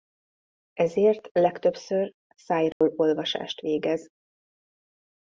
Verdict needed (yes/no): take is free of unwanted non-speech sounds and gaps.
no